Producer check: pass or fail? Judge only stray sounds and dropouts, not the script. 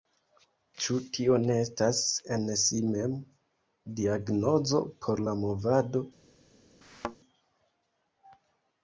fail